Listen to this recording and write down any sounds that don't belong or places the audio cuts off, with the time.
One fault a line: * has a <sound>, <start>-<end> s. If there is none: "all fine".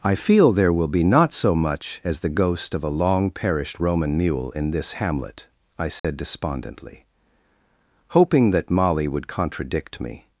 * has a dropout, 6.0-6.0 s